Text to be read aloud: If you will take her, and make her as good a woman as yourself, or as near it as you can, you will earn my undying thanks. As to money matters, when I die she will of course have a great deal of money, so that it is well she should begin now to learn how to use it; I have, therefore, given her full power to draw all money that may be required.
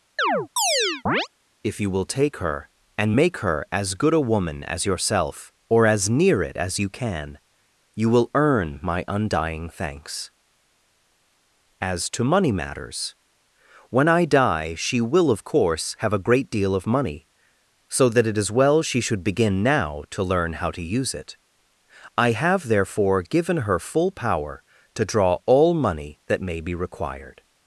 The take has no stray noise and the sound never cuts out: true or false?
false